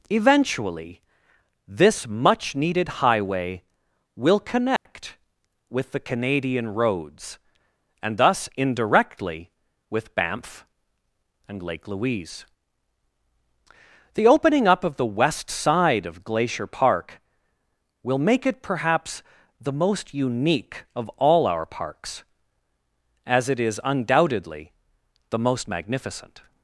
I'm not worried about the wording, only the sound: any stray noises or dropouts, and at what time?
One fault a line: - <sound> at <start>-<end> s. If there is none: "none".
- dropout at 4.8-4.9 s